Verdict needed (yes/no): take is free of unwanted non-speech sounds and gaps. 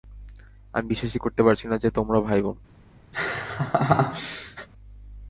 no